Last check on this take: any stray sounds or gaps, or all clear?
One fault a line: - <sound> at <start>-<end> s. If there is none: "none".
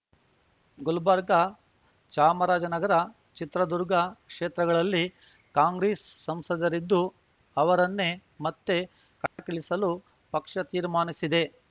- dropout at 9.3-9.4 s